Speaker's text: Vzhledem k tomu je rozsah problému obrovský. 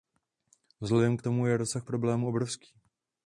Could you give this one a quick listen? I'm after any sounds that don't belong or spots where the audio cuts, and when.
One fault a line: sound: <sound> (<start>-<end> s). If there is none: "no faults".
no faults